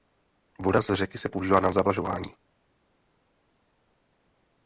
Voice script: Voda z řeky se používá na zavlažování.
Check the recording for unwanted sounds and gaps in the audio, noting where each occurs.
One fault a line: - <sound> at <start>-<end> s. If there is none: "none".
none